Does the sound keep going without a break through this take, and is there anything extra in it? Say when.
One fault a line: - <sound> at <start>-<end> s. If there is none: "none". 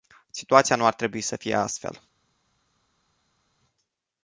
none